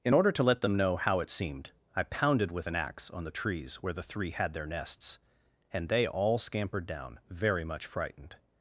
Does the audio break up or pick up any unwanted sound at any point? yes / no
no